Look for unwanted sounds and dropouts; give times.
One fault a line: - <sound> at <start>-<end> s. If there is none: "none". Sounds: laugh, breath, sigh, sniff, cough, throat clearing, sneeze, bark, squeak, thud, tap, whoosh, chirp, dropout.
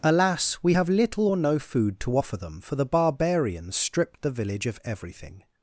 none